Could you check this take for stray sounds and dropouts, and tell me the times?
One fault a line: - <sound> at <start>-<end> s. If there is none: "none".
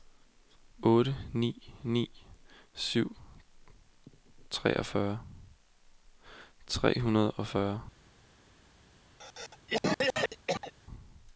- cough at 9.2-10.7 s